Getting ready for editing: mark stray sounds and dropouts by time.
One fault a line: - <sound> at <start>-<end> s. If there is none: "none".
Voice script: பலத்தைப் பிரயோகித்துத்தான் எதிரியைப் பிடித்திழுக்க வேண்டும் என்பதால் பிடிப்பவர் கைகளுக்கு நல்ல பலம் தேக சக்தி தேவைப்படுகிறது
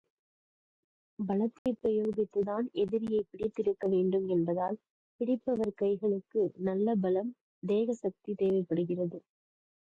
- dropout at 1.6-1.7 s